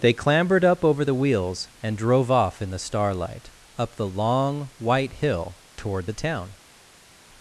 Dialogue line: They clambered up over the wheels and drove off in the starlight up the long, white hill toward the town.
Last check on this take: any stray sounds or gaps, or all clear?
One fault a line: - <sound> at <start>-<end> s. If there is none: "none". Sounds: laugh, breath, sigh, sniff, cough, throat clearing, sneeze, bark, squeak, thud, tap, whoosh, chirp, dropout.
none